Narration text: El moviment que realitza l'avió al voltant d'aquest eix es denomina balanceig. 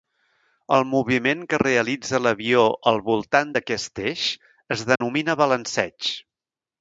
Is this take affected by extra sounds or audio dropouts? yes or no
yes